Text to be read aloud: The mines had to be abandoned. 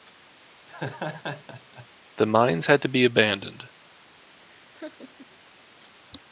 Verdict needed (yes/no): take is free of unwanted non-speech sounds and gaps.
no